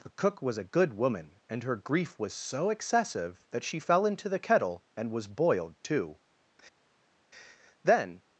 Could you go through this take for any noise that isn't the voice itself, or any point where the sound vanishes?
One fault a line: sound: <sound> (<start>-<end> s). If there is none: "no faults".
no faults